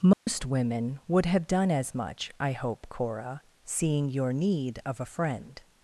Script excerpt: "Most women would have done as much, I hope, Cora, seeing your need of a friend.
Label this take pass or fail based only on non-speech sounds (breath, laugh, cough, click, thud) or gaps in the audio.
fail